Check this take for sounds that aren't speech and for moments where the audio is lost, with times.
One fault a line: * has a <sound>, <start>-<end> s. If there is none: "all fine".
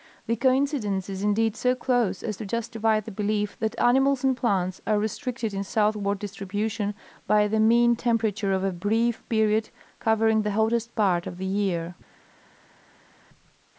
all fine